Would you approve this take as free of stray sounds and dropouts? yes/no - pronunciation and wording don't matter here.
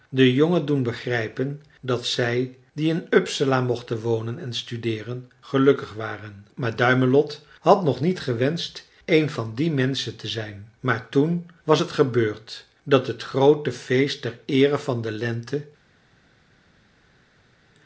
yes